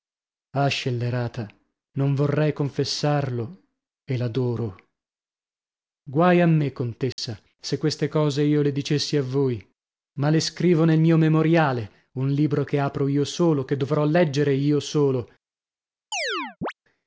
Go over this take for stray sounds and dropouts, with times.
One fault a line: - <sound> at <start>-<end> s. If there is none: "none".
- dropout at 7.1-7.2 s
- chirp at 16.1-16.7 s